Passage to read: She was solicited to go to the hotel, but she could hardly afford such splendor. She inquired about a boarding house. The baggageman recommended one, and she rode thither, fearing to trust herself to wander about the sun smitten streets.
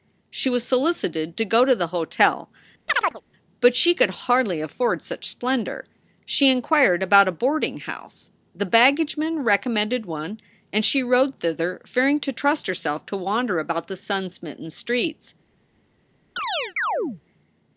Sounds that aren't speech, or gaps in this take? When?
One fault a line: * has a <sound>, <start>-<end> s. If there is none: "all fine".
* has a chirp, 2.9-3.2 s
* has a chirp, 16.4-17.2 s